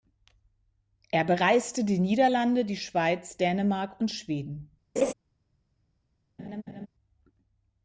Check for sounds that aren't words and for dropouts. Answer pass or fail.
fail